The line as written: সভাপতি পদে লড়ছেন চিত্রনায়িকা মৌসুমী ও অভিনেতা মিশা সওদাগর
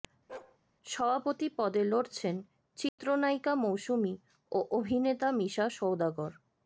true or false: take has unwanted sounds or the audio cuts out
true